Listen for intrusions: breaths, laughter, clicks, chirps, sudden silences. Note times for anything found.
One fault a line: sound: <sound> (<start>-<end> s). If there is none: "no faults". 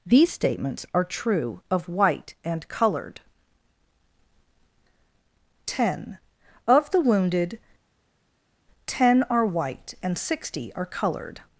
no faults